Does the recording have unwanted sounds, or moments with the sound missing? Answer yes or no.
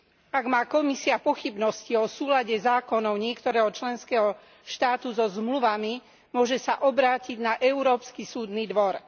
no